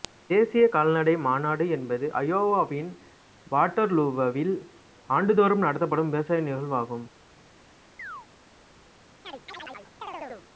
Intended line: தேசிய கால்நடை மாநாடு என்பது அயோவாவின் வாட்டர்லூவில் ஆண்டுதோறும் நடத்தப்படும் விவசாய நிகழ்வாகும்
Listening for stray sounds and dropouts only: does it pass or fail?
fail